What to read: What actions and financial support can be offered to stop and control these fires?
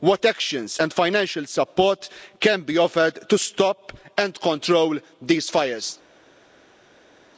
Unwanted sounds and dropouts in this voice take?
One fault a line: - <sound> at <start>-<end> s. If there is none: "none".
none